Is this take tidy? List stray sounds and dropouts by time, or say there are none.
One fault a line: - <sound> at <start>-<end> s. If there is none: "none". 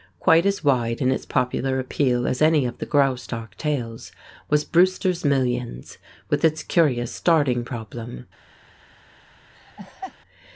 - laugh at 9.5-10.2 s